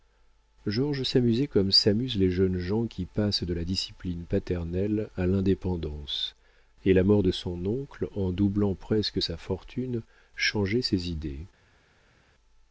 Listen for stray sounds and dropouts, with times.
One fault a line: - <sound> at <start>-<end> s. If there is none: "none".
none